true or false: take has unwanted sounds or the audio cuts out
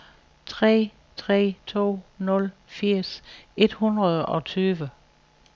false